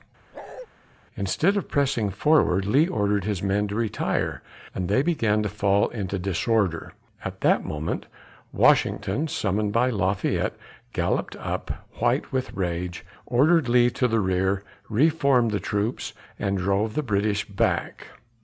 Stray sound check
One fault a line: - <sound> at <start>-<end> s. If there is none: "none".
- bark at 0.3-0.7 s